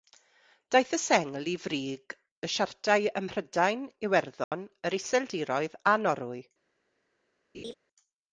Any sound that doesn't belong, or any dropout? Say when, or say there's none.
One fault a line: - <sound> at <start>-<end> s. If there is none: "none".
- dropout at 4.4-4.5 s
- laugh at 7.5-7.7 s